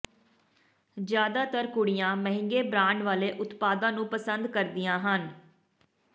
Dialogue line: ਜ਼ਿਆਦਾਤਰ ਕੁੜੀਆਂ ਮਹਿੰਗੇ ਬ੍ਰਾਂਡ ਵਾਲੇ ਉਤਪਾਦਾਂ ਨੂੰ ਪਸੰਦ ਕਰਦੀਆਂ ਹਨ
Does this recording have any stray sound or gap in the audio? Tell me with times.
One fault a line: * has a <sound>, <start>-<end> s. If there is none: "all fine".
all fine